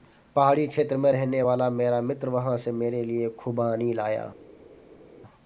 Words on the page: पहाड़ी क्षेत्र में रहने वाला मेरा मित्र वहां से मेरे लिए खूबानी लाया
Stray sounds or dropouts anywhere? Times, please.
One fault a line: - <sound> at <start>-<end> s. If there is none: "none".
none